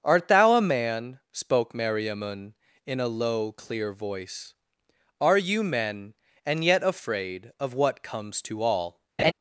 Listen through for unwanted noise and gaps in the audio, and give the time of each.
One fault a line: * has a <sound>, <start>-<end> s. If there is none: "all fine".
* has a laugh, 9.2-9.3 s